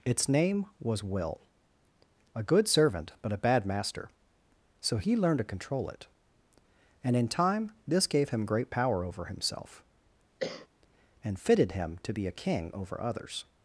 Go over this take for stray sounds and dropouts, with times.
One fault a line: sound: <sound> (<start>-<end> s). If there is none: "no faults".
sound: cough (10.4-10.7 s)